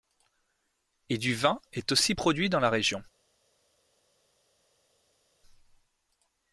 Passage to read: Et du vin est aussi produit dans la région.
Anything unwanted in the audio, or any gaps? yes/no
no